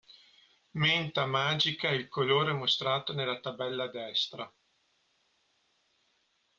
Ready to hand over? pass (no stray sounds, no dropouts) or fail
pass